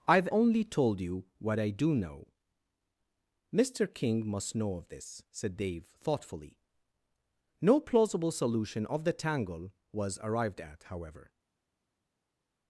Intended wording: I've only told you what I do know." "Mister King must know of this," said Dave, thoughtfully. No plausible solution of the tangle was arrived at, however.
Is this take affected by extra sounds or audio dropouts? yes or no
no